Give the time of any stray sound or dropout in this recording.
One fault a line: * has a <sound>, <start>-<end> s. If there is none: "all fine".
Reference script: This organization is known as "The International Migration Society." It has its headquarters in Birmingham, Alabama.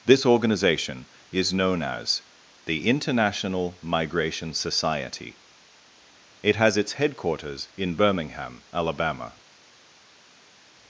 all fine